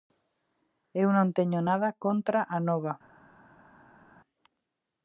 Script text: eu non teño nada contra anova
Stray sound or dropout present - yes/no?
no